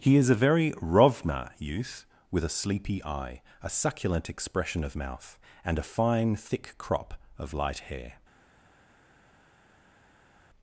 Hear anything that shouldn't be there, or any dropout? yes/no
no